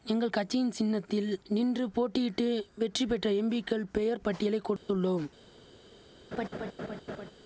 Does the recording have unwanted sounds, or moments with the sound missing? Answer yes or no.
yes